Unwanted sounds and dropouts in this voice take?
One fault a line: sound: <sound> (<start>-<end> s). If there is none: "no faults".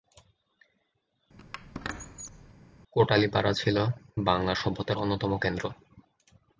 sound: squeak (1.4-2.5 s)